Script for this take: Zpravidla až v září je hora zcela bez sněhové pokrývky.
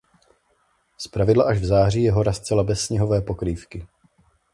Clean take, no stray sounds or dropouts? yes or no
yes